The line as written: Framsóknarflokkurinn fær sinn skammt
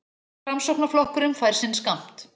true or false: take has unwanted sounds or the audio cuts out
false